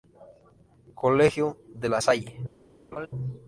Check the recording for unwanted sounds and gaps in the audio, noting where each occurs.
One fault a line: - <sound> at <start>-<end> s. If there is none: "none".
- laugh at 2.9-3.1 s